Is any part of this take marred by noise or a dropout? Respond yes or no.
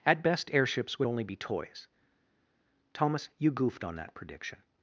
no